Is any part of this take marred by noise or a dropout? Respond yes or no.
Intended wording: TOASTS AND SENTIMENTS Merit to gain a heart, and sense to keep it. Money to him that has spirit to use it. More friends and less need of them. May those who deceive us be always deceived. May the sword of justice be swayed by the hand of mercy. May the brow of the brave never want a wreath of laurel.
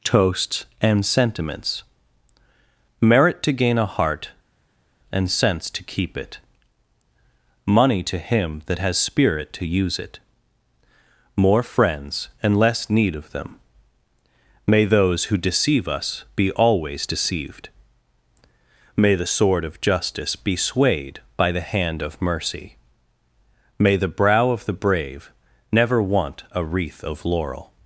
no